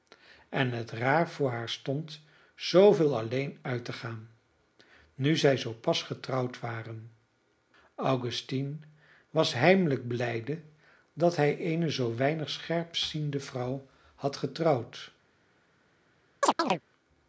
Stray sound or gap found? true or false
true